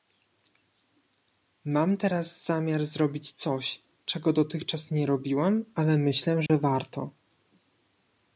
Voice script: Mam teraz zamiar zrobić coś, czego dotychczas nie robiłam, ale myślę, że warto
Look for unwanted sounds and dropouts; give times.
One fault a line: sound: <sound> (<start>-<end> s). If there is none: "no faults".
sound: dropout (6.5-6.5 s)